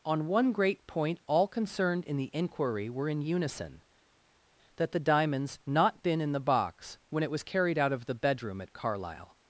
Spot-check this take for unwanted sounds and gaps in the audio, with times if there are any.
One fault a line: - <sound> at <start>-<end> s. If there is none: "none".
none